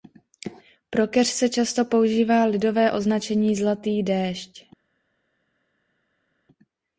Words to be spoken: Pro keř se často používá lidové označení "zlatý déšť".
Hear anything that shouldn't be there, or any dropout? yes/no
no